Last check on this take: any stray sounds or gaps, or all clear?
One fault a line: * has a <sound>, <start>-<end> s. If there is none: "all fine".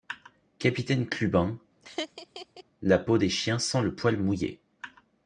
* has a laugh, 1.8-2.6 s